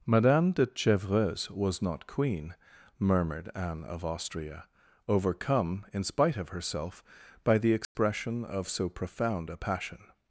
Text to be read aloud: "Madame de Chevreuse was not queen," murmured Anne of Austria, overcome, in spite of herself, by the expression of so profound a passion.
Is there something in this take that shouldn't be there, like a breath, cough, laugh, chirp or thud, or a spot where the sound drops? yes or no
yes